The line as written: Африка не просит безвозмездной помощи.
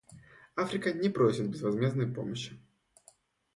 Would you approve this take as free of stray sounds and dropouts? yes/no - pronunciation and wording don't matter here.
yes